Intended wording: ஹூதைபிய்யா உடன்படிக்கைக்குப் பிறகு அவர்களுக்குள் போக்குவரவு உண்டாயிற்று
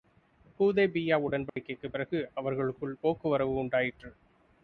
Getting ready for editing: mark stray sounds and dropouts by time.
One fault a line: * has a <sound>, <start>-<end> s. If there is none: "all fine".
* has a dropout, 1.5-1.6 s